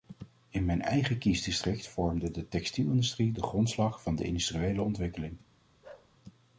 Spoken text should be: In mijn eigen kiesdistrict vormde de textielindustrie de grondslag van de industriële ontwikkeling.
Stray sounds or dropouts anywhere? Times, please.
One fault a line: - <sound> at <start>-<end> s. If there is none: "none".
- bark at 5.8-6.1 s